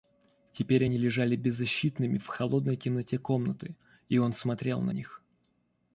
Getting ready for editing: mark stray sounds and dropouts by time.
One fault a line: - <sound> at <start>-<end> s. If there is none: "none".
none